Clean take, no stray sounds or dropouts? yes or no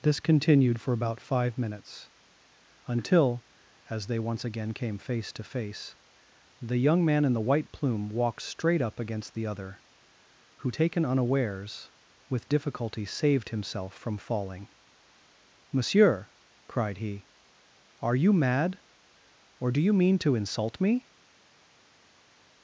yes